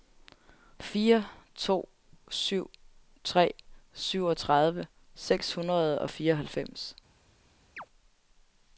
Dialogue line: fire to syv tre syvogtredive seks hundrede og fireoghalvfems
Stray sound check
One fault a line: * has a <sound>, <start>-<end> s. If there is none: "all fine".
* has a chirp, 7.8-7.9 s